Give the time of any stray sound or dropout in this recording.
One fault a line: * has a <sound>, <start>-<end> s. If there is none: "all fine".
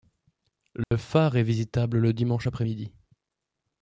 * has a dropout, 0.8-0.9 s